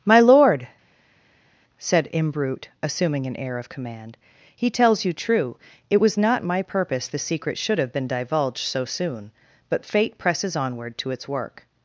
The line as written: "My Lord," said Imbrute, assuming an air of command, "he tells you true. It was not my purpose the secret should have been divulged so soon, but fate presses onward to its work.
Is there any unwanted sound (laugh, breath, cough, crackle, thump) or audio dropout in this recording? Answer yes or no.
no